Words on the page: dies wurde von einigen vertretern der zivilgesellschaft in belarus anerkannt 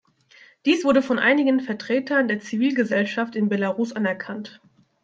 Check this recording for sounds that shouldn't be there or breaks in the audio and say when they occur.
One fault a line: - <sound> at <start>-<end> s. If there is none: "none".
none